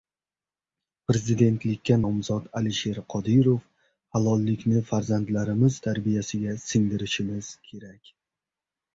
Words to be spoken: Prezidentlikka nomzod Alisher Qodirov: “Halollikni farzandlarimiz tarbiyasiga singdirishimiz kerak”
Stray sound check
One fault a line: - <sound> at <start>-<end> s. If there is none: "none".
none